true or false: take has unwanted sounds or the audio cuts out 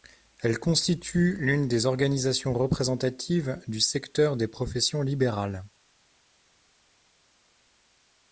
false